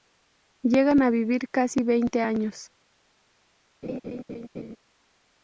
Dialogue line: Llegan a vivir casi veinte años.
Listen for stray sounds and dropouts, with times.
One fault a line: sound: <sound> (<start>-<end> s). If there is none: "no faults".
sound: laugh (3.8-4.8 s)